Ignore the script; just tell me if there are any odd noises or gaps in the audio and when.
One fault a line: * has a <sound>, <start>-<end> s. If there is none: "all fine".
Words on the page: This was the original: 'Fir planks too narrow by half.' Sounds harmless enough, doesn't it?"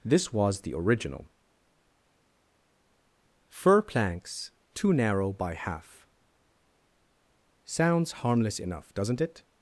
all fine